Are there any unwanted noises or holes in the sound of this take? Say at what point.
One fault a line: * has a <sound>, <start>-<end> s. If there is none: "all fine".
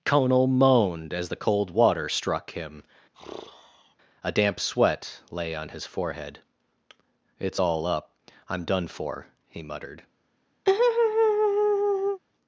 * has a sigh, 3.1-4.0 s
* has a laugh, 10.7-12.2 s